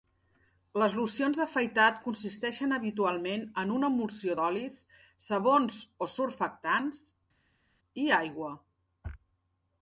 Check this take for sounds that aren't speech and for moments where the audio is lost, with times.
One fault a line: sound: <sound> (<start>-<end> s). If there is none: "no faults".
no faults